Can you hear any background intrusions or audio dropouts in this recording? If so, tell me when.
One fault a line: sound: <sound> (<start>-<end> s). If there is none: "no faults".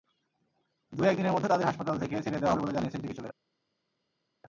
no faults